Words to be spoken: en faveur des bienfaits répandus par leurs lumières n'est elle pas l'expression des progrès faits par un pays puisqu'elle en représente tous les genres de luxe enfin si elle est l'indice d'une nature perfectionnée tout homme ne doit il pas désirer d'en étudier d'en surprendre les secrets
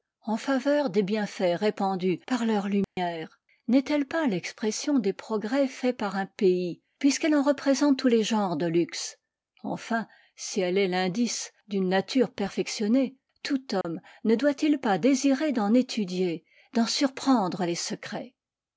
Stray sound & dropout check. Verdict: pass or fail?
fail